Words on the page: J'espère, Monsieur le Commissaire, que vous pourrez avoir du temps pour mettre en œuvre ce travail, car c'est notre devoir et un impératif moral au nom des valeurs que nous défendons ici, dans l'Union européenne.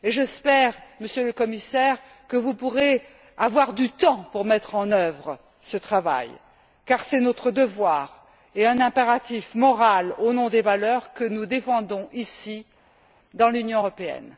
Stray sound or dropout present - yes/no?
no